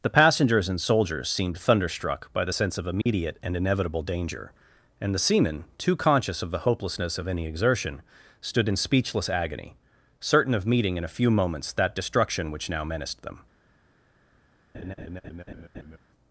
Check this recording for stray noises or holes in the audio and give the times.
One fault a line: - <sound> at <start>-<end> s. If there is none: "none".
- dropout at 3.0-3.1 s
- laugh at 14.7-16.0 s